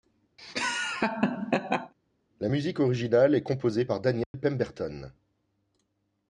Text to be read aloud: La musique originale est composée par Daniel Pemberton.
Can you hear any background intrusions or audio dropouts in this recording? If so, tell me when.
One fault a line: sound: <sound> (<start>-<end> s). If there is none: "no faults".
sound: laugh (0.4-1.9 s)
sound: dropout (4.2-4.3 s)